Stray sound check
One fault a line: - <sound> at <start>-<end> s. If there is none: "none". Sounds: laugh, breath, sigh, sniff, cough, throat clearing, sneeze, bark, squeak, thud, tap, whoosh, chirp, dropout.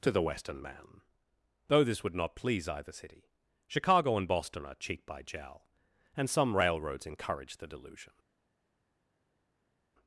none